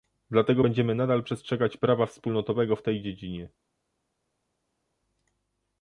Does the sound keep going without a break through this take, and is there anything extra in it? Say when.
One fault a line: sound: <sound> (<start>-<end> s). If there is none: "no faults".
no faults